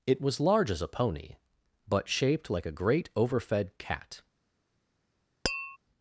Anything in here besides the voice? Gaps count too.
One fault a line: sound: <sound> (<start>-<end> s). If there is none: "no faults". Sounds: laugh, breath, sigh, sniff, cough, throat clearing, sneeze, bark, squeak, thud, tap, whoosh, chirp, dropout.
sound: tap (5.4-5.8 s)